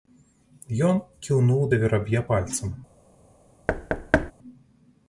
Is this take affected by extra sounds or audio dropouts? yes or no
yes